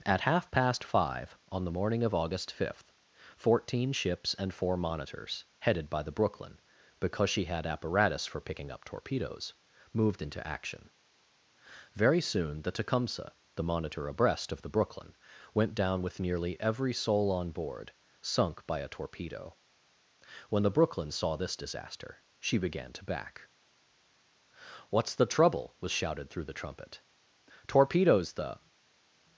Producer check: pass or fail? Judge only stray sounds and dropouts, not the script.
pass